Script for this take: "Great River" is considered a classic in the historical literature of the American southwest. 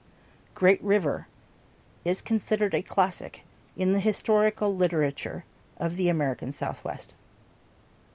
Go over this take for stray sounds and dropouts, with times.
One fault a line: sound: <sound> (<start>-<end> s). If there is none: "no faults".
no faults